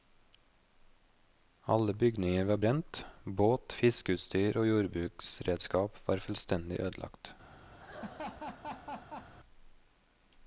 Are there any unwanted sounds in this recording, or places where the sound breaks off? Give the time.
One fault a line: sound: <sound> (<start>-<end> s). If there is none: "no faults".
sound: laugh (7.8-9.3 s)